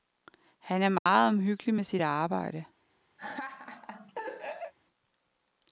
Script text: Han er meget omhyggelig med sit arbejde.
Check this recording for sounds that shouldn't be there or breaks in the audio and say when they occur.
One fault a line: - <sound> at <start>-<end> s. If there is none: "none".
- dropout at 1.0-1.1 s
- laugh at 3.2-4.7 s